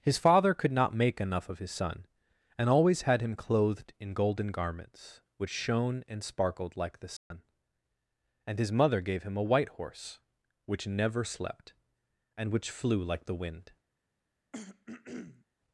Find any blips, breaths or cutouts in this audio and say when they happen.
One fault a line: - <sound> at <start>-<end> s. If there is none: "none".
- dropout at 7.2-7.3 s
- throat clearing at 14.5-15.4 s